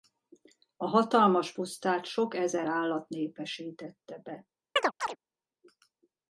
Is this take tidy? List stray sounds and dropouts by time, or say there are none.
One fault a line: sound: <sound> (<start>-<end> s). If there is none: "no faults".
sound: chirp (4.8-5.2 s)